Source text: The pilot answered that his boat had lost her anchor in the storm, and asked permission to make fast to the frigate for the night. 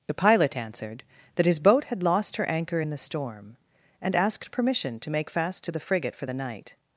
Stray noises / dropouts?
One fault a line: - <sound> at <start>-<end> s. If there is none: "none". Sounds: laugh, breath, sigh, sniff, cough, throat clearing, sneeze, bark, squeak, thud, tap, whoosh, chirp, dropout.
none